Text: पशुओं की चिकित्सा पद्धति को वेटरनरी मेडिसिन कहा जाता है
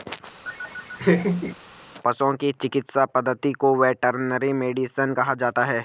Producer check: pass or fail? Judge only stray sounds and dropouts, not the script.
fail